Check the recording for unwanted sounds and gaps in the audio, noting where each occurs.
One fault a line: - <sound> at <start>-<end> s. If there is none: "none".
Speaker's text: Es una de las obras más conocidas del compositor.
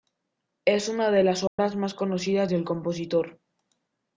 - dropout at 1.5-1.6 s